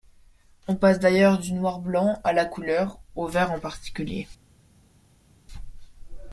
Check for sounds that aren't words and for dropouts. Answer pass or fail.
pass